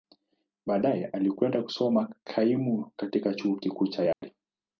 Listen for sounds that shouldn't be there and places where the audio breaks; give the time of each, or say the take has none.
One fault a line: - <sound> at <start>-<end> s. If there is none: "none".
- dropout at 4.1-4.2 s